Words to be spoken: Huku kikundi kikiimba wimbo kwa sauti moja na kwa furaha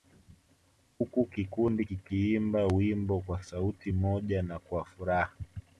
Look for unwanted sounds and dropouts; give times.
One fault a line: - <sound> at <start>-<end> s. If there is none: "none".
none